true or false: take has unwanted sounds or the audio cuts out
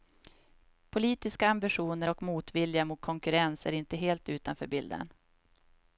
false